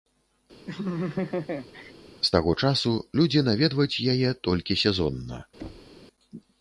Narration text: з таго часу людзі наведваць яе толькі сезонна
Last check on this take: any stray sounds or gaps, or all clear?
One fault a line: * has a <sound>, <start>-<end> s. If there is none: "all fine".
* has a laugh, 0.7-1.9 s
* has a thud, 5.6-6.0 s